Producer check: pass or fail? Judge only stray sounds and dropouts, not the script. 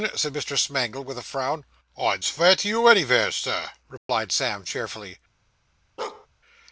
fail